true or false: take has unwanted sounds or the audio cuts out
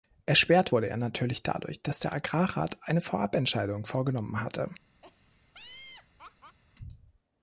true